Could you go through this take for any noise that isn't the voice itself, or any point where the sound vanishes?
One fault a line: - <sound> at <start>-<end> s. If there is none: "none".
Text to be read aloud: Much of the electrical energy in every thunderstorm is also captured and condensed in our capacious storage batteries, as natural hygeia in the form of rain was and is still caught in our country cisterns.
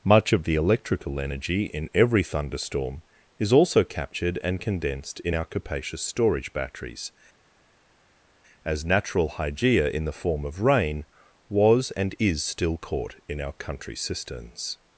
none